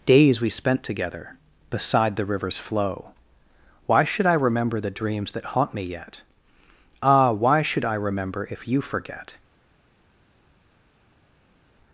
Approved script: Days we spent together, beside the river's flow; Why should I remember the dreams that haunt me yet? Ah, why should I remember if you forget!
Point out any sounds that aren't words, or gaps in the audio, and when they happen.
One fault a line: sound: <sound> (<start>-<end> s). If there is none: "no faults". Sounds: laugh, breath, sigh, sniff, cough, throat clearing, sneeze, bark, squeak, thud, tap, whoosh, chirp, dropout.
no faults